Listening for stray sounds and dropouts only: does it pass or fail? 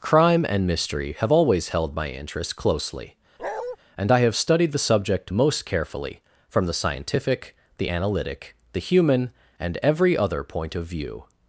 fail